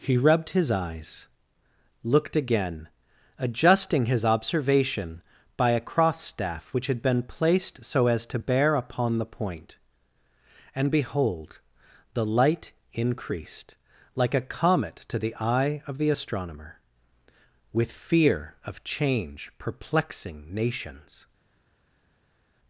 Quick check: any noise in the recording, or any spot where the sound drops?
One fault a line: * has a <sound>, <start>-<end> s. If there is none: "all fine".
all fine